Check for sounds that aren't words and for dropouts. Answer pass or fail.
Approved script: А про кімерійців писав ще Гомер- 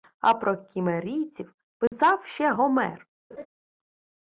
fail